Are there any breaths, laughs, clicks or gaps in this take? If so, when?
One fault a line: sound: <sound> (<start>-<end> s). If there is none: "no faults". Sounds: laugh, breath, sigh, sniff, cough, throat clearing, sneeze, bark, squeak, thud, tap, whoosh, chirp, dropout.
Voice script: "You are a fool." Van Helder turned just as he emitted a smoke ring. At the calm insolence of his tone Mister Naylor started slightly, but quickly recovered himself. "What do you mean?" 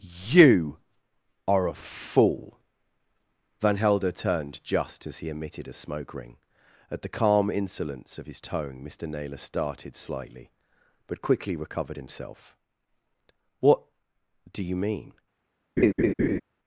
sound: laugh (15.8-16.4 s)